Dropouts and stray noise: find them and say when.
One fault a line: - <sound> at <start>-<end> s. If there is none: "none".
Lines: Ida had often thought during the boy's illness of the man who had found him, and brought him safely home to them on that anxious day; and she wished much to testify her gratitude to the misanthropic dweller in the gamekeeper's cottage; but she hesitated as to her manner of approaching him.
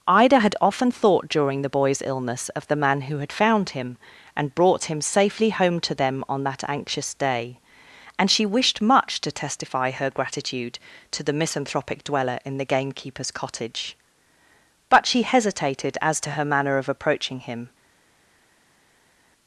none